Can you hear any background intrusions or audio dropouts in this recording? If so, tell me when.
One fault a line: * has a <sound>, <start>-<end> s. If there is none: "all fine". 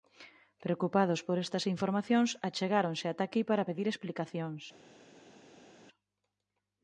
all fine